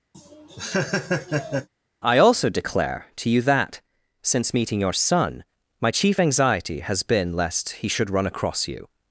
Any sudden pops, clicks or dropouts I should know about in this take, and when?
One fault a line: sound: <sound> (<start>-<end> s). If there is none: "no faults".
sound: laugh (0.1-1.7 s)